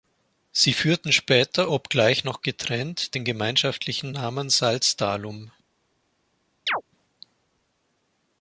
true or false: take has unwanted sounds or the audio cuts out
true